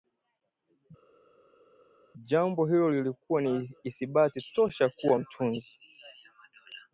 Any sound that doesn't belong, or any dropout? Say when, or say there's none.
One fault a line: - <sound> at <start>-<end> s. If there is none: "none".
none